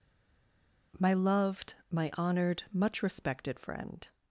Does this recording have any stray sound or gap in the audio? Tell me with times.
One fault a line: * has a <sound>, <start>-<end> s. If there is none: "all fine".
all fine